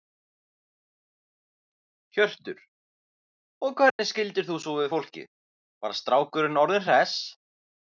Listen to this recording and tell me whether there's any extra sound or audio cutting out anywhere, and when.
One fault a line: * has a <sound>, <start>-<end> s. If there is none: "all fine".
* has a dropout, 3.9-4.0 s